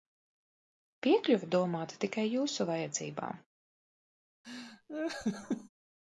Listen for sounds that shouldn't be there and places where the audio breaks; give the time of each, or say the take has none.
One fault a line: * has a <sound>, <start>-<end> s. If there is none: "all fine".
* has a laugh, 4.4-5.7 s